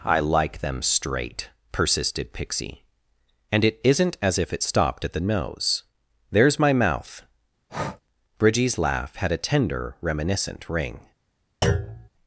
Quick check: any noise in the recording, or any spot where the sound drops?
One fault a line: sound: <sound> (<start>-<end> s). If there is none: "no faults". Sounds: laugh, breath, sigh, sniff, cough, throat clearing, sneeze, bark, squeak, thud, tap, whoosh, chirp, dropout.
sound: breath (7.7-8.0 s)
sound: thud (11.6-12.1 s)